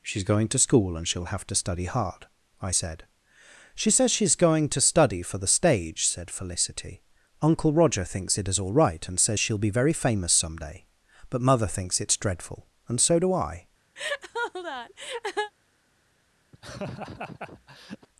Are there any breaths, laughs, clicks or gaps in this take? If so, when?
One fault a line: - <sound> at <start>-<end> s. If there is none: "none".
- laugh at 14.0-15.5 s
- laugh at 16.5-18.1 s